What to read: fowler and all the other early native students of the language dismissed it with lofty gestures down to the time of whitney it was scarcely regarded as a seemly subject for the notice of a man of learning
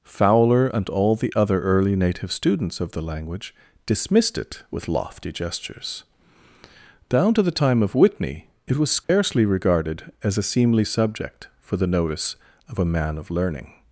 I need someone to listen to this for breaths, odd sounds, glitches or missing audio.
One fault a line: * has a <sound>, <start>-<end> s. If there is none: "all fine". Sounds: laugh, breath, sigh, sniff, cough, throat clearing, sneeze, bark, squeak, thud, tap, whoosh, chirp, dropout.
* has a dropout, 9.0-9.1 s